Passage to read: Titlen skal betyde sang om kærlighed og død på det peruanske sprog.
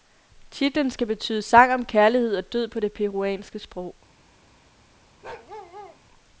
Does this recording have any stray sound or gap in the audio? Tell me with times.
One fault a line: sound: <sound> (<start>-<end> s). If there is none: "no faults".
sound: bark (5.2-6.0 s)